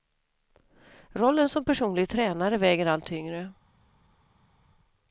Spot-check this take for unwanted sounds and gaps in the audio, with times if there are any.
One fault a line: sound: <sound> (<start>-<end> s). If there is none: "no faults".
no faults